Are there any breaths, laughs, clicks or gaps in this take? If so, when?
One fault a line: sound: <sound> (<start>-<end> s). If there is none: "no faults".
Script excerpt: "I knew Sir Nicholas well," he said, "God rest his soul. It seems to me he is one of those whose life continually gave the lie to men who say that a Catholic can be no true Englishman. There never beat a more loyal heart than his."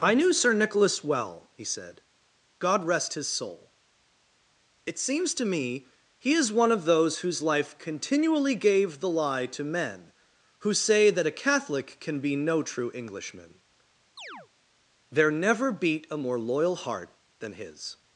sound: chirp (14.2-14.5 s)